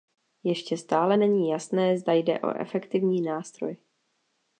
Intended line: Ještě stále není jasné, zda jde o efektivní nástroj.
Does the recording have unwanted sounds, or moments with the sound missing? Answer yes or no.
no